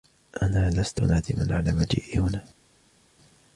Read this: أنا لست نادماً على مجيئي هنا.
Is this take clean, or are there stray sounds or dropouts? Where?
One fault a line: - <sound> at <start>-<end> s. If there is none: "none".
none